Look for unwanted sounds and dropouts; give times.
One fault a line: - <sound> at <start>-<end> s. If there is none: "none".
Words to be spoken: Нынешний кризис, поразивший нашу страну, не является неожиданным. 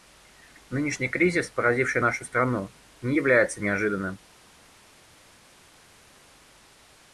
none